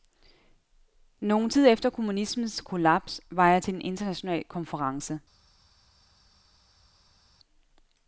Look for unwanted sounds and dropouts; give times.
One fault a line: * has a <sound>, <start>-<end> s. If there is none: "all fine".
all fine